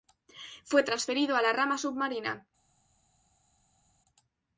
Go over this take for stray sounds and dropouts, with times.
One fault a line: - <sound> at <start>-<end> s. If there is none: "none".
none